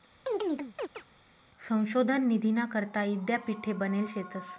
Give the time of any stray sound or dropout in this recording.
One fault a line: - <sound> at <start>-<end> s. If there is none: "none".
- chirp at 0.3-1.0 s